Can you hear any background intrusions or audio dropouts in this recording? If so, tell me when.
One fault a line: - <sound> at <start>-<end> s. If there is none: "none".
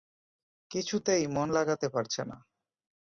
none